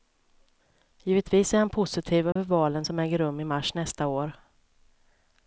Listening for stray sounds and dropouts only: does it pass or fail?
fail